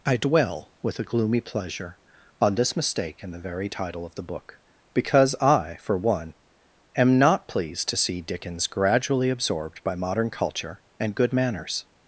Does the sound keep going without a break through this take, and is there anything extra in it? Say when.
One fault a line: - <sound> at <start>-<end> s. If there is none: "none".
none